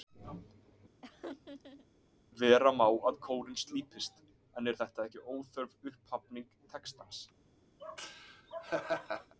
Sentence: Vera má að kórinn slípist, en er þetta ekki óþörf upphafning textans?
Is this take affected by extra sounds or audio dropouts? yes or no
yes